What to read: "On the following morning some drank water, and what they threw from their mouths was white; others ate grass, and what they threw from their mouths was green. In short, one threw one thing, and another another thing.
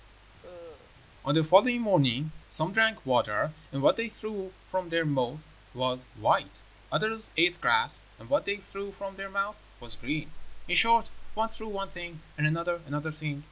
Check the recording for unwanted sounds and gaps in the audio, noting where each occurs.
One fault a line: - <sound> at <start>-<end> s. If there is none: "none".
- cough at 0.4-0.9 s